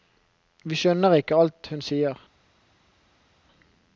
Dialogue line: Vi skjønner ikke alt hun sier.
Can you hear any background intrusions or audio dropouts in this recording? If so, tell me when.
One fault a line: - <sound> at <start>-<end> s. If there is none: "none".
none